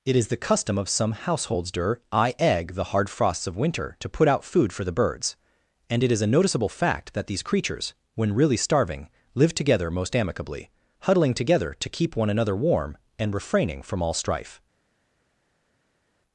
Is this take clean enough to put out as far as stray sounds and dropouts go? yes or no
yes